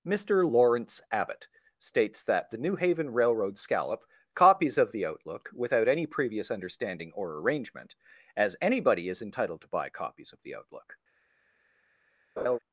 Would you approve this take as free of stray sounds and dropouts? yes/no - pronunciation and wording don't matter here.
no